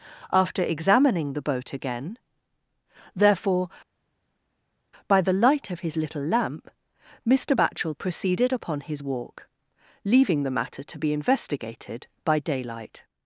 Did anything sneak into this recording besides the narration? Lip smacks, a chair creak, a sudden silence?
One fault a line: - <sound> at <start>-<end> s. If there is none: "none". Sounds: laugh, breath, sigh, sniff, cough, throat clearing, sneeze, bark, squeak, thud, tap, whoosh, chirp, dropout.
none